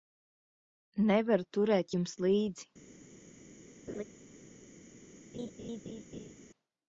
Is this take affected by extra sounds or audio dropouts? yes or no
yes